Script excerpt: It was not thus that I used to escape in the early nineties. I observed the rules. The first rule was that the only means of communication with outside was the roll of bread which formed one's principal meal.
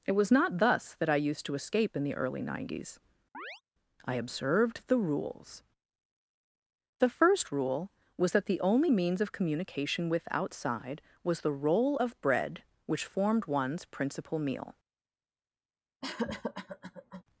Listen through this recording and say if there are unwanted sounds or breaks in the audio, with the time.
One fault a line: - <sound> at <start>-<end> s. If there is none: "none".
- chirp at 3.3-3.6 s
- cough at 16.0-17.2 s